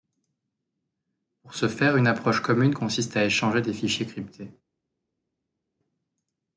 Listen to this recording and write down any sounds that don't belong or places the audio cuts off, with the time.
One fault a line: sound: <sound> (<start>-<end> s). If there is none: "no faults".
no faults